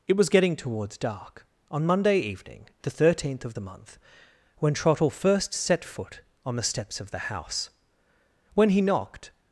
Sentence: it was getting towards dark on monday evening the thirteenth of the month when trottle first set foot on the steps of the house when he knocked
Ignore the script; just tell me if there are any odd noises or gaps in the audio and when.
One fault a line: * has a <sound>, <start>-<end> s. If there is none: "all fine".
all fine